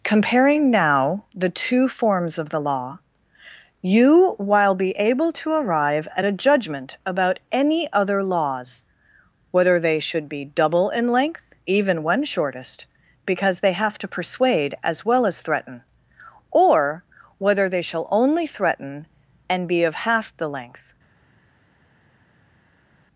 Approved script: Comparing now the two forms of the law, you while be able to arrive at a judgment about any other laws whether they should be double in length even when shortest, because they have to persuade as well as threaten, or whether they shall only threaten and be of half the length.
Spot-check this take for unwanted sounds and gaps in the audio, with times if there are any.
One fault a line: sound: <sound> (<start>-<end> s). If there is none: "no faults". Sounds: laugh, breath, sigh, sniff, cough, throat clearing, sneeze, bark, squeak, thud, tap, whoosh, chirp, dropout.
no faults